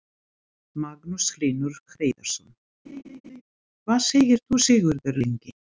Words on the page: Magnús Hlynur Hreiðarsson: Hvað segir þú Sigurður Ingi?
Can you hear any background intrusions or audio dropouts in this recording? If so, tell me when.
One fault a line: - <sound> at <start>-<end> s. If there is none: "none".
- laugh at 2.9-3.4 s